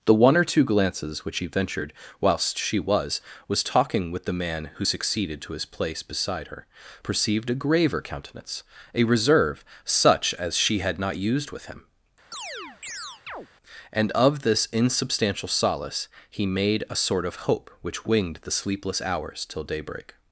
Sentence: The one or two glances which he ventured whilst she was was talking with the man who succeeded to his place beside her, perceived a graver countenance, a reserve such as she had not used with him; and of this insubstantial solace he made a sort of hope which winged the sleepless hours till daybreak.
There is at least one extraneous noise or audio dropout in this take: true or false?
true